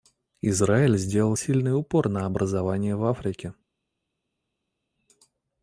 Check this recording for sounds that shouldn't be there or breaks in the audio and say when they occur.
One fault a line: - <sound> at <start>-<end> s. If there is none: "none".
none